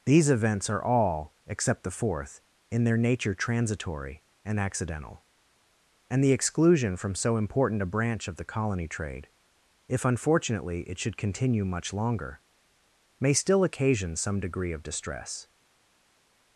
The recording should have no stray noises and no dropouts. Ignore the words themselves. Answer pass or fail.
pass